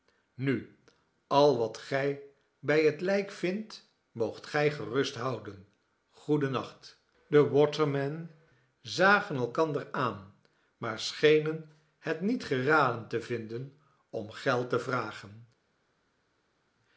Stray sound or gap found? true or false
false